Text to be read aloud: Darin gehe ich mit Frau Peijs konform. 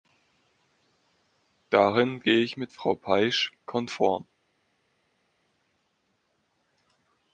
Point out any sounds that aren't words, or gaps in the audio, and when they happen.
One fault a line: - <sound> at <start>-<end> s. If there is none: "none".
none